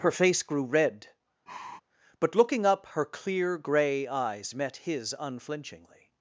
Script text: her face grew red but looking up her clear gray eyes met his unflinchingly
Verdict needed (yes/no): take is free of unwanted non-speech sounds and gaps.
no